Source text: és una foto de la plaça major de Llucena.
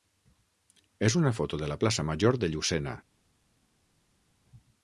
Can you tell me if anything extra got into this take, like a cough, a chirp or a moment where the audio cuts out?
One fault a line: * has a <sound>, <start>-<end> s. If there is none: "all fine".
all fine